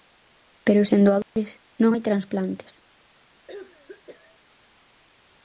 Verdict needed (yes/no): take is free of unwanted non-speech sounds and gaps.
no